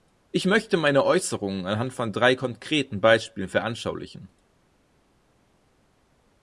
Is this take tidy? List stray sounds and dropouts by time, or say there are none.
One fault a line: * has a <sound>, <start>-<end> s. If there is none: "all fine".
all fine